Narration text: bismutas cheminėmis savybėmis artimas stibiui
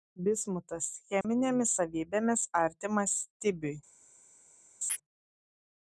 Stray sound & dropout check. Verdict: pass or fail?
fail